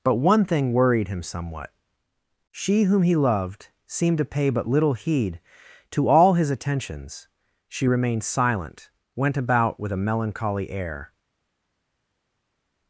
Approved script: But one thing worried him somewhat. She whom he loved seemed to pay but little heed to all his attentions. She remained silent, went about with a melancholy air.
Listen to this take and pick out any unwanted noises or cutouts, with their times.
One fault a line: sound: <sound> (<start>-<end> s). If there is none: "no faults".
no faults